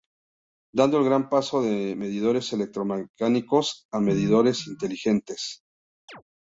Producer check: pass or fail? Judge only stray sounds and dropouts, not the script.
fail